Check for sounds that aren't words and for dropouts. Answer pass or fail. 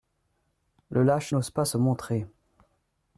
pass